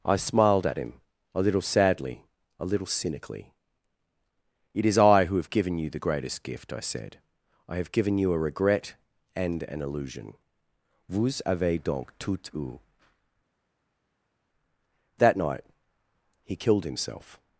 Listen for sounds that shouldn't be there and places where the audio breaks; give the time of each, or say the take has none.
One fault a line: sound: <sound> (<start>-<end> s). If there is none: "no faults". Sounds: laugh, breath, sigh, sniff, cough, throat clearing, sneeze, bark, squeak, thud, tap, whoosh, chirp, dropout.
no faults